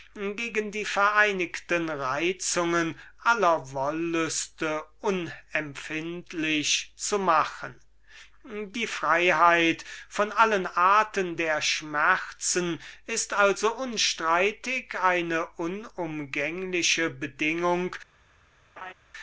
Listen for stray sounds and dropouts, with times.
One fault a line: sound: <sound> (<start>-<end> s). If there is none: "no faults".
sound: laugh (18.8-18.9 s)